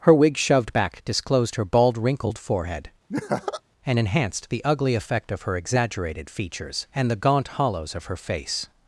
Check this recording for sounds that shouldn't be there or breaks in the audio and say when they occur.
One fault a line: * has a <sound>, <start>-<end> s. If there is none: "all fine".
* has a laugh, 3.1-3.6 s